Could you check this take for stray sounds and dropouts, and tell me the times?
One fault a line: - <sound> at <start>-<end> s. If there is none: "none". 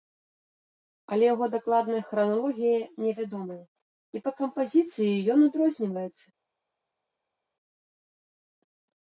none